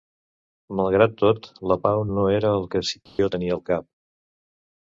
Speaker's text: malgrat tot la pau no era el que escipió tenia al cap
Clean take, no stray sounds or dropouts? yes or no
no